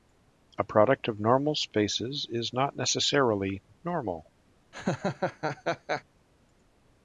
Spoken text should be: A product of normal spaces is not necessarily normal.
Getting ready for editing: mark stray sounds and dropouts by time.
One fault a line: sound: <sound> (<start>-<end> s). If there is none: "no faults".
sound: laugh (4.7-6.0 s)